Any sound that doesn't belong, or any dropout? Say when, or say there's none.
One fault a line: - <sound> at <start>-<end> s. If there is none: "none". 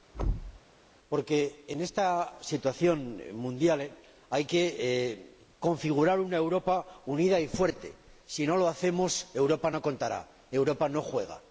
- thud at 0.1-0.6 s